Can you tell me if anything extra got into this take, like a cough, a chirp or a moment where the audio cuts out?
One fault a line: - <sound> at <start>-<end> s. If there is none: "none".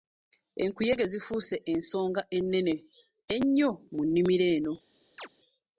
- chirp at 5.2-5.3 s